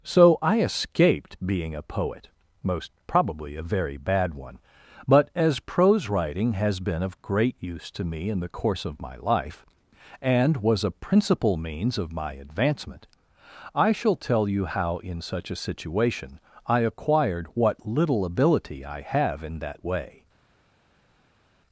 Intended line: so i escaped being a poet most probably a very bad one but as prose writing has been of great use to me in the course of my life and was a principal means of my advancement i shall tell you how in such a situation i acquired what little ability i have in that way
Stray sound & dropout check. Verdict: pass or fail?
pass